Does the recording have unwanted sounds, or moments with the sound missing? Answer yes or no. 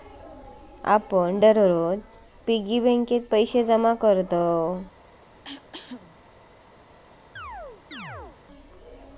yes